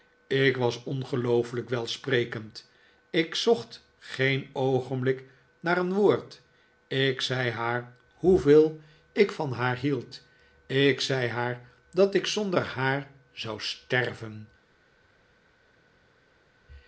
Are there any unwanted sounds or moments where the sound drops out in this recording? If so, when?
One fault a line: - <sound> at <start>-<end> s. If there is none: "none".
none